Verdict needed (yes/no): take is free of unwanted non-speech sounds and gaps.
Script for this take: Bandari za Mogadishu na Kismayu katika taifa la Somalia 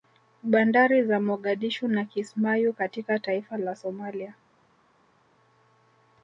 yes